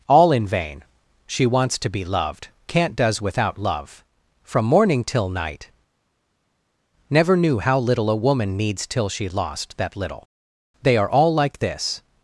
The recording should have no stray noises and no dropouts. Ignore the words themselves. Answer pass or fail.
pass